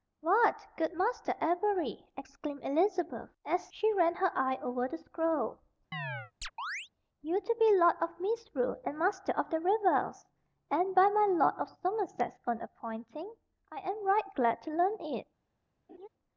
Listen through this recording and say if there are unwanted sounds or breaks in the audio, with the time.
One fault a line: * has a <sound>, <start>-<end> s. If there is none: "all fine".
* has a chirp, 5.9-6.9 s
* has a laugh, 15.9-16.1 s